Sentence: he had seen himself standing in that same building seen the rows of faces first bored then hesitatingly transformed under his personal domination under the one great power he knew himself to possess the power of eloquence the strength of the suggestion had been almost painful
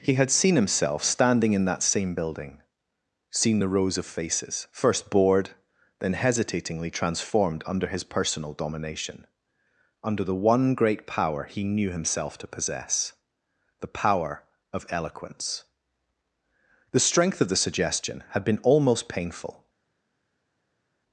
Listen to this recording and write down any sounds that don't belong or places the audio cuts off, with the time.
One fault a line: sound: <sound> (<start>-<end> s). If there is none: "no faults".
no faults